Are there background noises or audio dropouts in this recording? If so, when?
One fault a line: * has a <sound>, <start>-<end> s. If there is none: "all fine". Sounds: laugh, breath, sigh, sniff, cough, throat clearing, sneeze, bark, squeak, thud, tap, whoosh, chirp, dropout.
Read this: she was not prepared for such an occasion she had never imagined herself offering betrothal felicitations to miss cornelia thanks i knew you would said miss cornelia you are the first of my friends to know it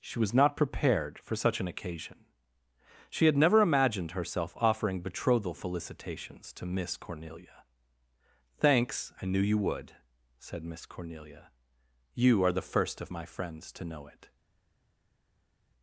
all fine